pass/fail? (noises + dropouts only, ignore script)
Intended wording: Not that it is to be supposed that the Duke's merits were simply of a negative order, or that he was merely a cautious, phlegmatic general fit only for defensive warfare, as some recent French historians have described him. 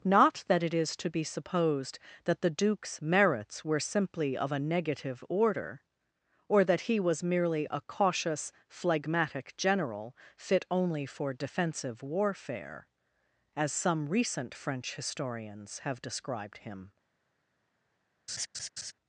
fail